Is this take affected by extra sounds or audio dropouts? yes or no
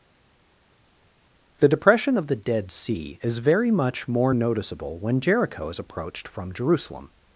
no